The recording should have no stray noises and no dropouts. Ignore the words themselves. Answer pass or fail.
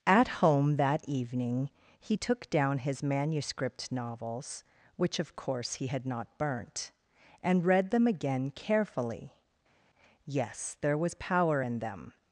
pass